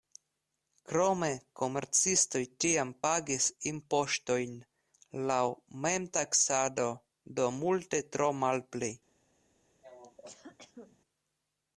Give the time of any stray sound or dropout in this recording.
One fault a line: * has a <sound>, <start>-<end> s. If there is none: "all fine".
* has a cough, 9.8-11.0 s